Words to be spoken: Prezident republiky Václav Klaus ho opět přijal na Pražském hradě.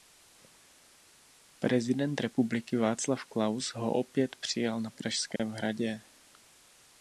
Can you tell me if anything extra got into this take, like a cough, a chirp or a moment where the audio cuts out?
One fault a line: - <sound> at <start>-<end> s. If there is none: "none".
- dropout at 5.4-5.4 s